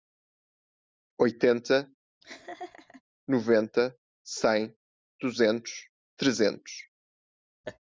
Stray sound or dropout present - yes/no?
yes